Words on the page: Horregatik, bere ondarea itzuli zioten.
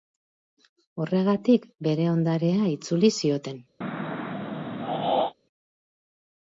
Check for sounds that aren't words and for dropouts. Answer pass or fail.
fail